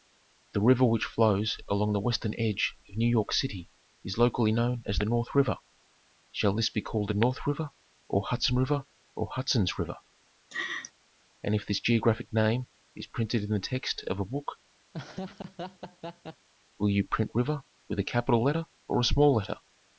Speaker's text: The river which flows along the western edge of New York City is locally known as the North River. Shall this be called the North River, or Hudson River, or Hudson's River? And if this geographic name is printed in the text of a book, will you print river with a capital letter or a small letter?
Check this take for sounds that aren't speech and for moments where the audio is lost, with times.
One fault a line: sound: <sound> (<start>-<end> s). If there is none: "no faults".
sound: laugh (10.5-10.9 s)
sound: laugh (14.9-16.5 s)